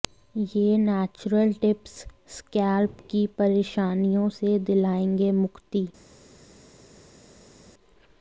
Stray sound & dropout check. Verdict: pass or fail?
pass